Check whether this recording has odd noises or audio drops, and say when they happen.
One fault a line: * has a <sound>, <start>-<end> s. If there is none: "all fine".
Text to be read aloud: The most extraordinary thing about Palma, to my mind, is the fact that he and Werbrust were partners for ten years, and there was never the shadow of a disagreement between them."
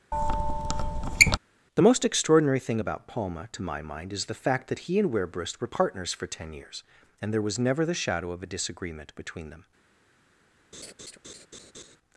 * has a squeak, 0.1-1.4 s
* has a laugh, 10.7-12.0 s